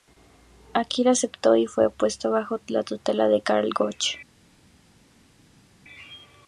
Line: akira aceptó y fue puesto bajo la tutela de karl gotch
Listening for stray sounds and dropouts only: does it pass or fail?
pass